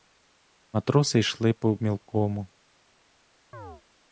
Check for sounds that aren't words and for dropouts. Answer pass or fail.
fail